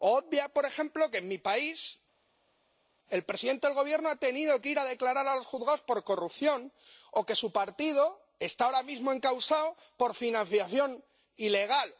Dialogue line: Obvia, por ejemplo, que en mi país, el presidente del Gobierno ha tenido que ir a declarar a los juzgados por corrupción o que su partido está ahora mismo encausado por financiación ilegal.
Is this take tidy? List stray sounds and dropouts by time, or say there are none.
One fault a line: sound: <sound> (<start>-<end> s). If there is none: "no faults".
no faults